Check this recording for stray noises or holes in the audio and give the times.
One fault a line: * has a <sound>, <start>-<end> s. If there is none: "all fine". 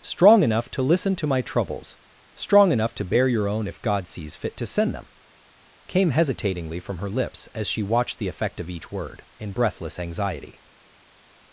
all fine